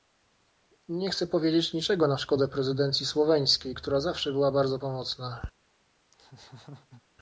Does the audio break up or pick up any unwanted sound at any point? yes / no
yes